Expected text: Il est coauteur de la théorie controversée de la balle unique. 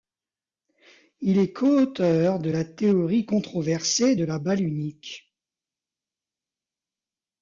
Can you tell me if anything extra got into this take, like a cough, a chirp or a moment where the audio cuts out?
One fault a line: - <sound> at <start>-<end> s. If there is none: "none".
none